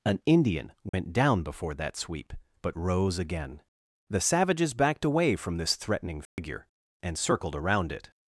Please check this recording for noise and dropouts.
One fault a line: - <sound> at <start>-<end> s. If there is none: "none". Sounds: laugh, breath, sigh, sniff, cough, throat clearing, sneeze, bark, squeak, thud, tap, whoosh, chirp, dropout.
- dropout at 0.9-0.9 s
- dropout at 6.3-6.4 s